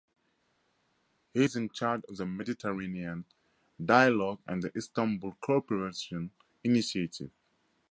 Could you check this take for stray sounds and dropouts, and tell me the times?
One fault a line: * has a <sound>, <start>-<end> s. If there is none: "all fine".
all fine